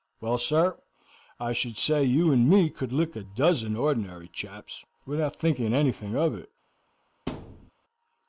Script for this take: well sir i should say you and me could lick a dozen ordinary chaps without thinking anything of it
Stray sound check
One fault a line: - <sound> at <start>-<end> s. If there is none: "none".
- thud at 7.3-7.7 s